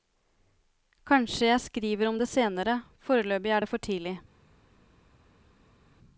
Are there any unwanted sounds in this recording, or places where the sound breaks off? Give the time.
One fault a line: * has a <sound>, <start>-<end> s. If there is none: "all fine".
all fine